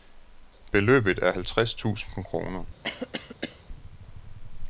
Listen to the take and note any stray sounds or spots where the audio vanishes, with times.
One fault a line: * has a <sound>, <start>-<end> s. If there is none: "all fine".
* has a cough, 2.8-3.6 s